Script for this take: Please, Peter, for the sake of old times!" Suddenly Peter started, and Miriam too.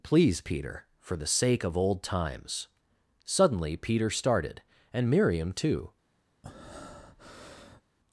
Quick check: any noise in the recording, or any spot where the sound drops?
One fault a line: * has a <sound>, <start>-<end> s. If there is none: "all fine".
* has a breath, 6.4-7.8 s